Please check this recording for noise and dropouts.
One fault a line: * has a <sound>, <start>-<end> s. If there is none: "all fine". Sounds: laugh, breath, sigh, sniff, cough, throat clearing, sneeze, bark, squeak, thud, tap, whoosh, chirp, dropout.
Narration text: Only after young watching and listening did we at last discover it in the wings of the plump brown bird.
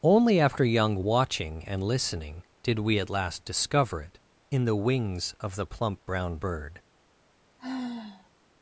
* has a sigh, 7.6-8.3 s